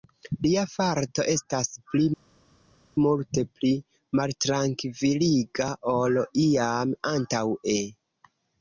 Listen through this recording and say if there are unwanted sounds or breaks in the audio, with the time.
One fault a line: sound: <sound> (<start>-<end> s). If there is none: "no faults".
no faults